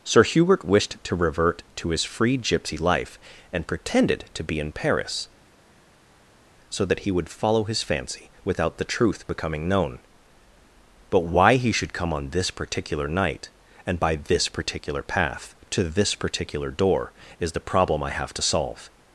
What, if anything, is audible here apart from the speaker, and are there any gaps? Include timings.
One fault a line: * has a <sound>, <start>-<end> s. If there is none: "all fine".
all fine